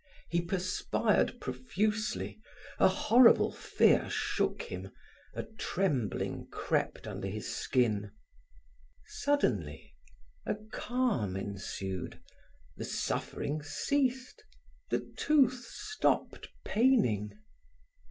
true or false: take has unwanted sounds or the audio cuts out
false